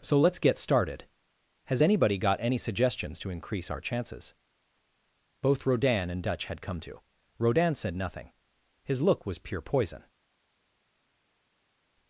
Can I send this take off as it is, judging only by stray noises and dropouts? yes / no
yes